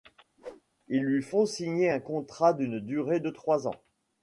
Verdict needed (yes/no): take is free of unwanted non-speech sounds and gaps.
no